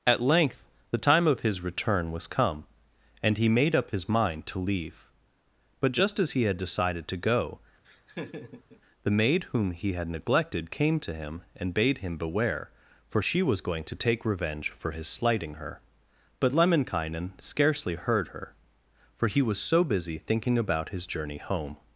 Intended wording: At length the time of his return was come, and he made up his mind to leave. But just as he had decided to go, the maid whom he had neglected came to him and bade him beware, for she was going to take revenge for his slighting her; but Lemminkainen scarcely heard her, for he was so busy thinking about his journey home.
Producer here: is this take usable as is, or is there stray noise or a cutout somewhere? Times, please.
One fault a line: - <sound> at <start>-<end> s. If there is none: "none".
- laugh at 7.8-8.8 s